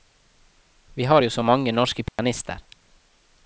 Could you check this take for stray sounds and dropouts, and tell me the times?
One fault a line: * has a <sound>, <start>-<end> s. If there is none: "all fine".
* has a dropout, 2.1-2.2 s